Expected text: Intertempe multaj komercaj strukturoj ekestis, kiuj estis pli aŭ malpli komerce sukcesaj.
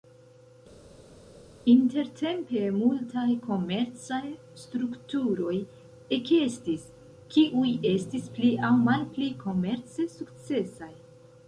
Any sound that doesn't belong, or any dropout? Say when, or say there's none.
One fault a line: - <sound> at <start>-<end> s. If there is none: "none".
none